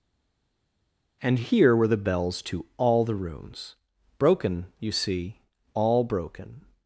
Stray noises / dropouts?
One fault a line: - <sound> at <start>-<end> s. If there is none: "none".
none